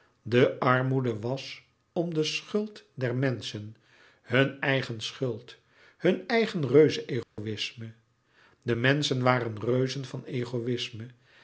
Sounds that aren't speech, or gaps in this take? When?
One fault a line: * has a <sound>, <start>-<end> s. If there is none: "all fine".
* has a dropout, 7.2-7.4 s